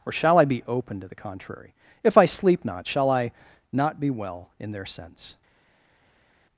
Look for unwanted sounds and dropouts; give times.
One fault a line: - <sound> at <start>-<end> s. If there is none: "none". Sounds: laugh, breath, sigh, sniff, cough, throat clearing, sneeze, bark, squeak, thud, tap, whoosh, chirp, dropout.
none